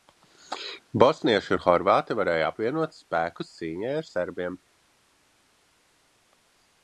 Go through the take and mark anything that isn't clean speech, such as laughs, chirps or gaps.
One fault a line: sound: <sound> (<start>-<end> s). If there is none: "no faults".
no faults